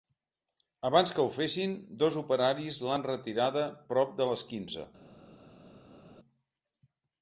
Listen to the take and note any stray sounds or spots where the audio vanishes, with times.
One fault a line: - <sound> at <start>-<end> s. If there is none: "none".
none